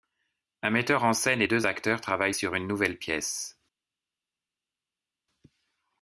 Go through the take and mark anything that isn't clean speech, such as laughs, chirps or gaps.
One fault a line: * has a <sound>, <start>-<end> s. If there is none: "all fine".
all fine